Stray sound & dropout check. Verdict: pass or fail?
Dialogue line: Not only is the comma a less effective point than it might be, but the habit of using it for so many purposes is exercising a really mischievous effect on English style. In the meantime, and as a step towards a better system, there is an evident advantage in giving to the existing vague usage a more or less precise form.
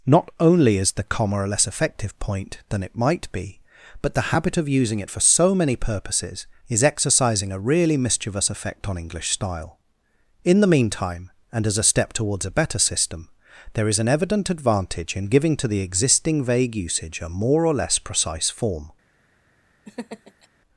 fail